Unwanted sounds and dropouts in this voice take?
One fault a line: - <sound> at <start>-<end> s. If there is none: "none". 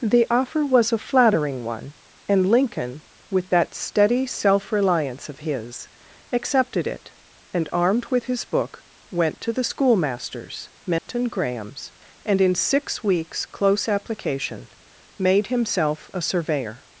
- dropout at 11.0-11.1 s